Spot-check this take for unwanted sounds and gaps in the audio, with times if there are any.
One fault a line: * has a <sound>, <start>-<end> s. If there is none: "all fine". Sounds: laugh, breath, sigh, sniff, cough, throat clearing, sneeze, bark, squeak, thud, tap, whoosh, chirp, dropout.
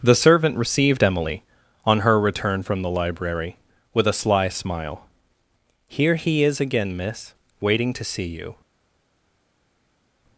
all fine